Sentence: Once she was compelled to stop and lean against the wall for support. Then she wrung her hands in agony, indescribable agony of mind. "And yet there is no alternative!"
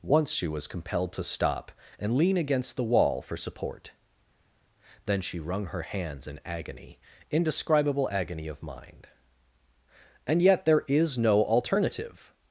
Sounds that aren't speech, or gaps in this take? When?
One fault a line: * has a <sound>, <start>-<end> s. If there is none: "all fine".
all fine